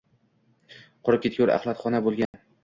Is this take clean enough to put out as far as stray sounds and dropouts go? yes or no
no